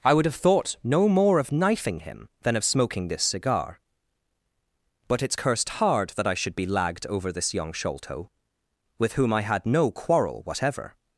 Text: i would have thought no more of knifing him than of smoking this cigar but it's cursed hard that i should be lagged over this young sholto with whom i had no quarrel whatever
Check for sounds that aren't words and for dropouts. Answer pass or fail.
pass